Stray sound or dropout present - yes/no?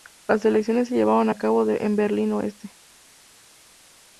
no